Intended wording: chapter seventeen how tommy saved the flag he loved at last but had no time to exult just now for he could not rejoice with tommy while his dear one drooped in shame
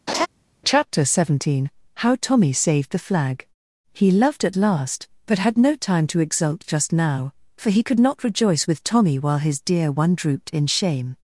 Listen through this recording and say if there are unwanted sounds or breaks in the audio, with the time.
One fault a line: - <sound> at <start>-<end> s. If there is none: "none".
- laugh at 0.1-0.3 s